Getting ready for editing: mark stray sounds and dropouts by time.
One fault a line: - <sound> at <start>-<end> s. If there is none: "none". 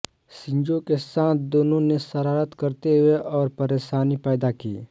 none